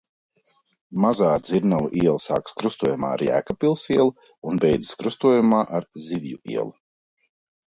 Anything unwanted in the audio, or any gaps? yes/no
no